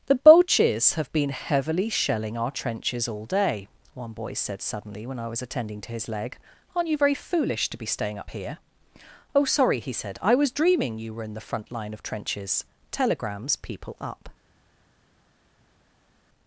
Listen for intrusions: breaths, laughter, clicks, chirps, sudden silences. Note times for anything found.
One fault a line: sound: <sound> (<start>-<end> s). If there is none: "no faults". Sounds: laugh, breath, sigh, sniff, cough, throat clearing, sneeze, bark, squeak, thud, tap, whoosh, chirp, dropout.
no faults